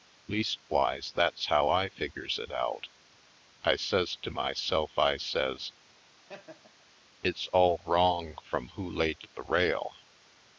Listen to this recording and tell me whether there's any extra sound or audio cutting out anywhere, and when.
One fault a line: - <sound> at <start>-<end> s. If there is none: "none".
- laugh at 6.2-6.9 s